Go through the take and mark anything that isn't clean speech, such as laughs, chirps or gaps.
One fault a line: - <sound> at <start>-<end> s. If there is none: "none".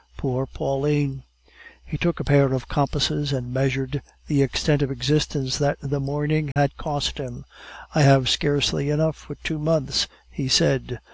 - dropout at 6.5-6.6 s